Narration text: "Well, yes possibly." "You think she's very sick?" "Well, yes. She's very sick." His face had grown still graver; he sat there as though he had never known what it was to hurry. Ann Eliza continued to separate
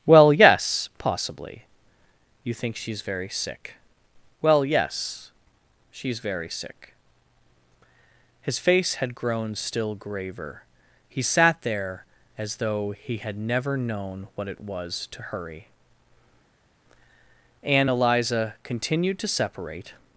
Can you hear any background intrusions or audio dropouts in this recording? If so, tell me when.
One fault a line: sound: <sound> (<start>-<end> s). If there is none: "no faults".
no faults